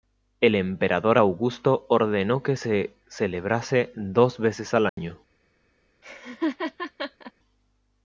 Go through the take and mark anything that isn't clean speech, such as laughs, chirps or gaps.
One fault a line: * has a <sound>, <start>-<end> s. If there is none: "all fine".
* has a dropout, 4.9-5.0 s
* has a laugh, 6.0-7.3 s